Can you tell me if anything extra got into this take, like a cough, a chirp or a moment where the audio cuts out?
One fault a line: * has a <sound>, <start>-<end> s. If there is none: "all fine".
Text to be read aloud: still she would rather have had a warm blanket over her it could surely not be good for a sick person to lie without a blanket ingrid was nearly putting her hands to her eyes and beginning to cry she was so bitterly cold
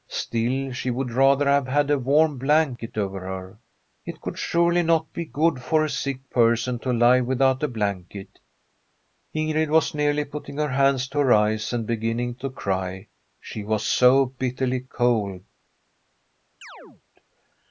* has a chirp, 16.6-17.0 s